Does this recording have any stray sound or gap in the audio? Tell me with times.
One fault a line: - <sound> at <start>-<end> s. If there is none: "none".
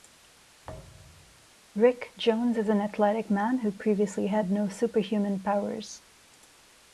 - thud at 0.6-1.5 s